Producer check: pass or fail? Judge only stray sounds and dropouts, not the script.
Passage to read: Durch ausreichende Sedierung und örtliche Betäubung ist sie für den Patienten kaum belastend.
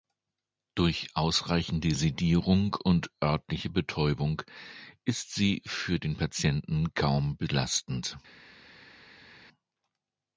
pass